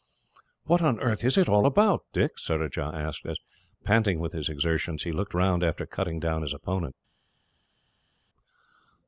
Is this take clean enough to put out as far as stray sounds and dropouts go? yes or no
yes